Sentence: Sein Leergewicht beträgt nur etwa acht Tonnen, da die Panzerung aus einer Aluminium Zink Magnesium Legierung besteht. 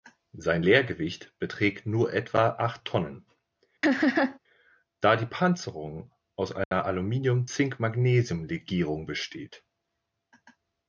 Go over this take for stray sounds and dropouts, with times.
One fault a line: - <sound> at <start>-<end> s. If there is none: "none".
- laugh at 3.8-4.4 s
- dropout at 6.6-6.7 s